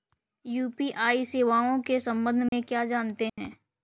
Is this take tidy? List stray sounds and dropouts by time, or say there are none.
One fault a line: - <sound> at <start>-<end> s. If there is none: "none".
- dropout at 2.5-2.5 s
- dropout at 3.3-3.4 s